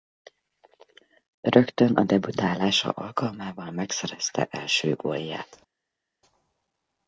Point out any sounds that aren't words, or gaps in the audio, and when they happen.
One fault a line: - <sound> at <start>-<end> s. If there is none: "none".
none